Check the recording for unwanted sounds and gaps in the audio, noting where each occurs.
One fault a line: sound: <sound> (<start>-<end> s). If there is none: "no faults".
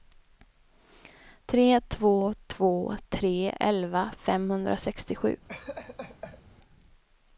sound: laugh (5.5-6.4 s)